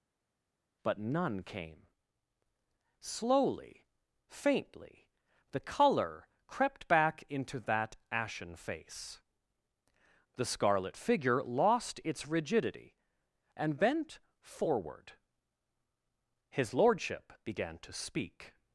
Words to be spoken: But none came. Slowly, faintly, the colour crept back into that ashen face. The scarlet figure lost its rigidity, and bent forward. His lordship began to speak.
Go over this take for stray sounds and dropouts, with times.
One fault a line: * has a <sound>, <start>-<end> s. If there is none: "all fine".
all fine